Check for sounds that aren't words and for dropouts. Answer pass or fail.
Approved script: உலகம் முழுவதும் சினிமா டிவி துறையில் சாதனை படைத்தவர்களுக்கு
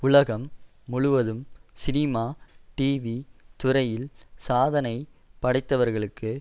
pass